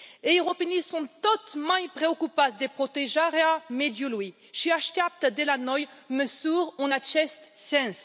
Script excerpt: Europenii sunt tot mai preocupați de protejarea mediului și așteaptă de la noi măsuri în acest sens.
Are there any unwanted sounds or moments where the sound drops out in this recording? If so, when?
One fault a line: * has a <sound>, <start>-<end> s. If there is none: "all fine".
all fine